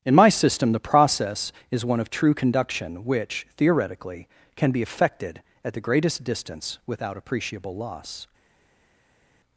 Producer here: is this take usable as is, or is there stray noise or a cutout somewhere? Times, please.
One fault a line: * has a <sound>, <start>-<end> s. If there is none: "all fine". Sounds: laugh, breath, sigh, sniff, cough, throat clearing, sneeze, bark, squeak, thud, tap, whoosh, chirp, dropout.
all fine